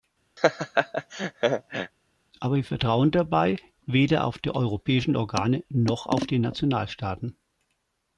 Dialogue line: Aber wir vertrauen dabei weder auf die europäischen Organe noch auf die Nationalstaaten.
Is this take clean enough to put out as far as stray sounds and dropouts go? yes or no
no